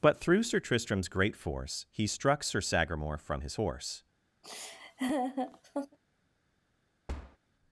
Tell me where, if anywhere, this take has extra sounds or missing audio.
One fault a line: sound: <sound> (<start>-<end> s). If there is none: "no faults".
sound: laugh (4.4-6.0 s)
sound: thud (7.1-7.4 s)